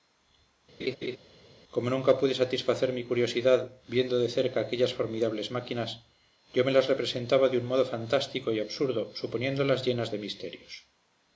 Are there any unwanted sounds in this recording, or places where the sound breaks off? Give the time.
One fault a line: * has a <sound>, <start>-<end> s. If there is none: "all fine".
* has a laugh, 0.8-1.2 s